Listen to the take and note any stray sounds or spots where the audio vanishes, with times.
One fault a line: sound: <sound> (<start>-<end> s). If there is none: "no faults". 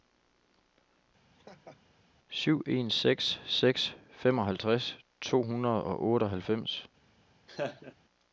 sound: laugh (1.3-1.8 s)
sound: laugh (7.5-7.9 s)